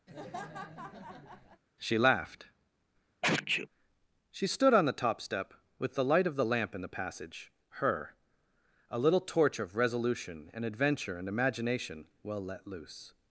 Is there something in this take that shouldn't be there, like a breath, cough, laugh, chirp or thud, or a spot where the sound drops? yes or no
yes